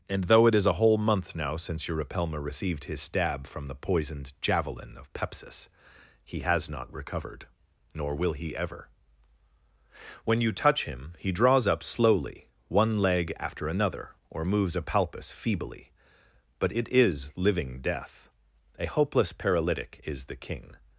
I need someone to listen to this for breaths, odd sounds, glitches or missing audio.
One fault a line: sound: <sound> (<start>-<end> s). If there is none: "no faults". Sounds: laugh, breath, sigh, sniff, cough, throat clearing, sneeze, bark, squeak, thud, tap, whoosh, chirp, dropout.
no faults